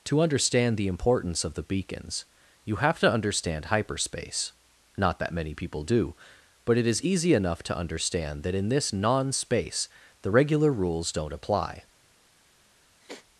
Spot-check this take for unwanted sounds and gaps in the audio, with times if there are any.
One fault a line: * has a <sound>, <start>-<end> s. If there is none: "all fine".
* has a sniff, 13.0-13.3 s